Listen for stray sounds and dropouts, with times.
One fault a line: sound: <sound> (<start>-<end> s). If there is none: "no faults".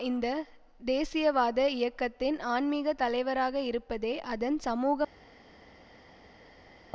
no faults